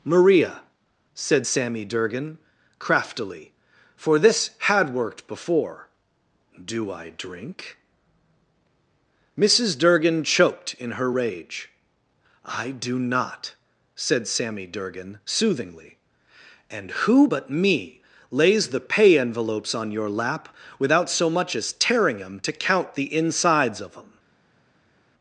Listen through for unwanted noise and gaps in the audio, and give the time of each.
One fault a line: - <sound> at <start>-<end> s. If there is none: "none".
none